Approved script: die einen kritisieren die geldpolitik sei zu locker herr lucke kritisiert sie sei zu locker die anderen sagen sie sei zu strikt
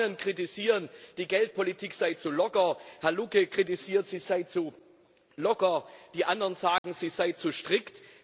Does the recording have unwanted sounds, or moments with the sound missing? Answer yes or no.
yes